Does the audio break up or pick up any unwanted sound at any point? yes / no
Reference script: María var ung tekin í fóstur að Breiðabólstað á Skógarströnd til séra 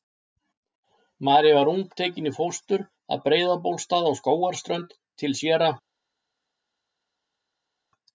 no